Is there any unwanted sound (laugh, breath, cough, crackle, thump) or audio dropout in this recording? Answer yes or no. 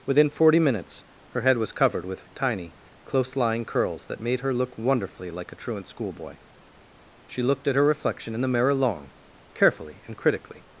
no